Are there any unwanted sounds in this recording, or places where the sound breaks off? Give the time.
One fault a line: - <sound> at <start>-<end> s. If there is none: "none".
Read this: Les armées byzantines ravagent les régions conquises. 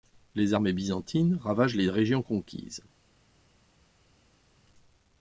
none